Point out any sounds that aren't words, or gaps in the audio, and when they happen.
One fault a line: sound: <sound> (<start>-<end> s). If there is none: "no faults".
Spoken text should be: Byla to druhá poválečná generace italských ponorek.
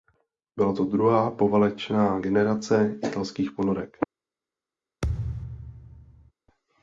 sound: thud (5.0-6.3 s)